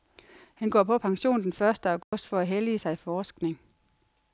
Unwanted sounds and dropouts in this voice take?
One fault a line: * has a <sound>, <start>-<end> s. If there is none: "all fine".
* has a dropout, 2.0-2.1 s